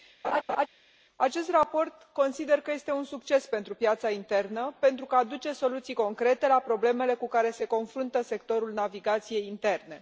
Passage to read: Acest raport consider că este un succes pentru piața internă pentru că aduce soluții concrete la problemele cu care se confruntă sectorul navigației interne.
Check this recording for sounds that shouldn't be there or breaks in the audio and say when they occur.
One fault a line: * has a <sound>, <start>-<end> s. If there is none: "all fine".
* has a laugh, 0.2-0.7 s